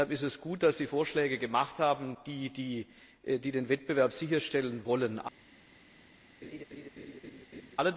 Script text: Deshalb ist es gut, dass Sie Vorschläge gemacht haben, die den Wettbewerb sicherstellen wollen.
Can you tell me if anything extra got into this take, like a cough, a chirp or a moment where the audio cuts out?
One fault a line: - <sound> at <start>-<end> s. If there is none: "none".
- laugh at 6.4-7.8 s